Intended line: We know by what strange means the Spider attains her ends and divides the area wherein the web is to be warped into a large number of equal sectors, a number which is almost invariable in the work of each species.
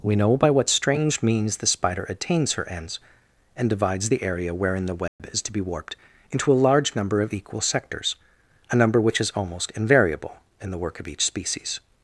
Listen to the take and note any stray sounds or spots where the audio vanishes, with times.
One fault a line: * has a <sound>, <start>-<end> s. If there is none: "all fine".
* has a dropout, 5.1-5.2 s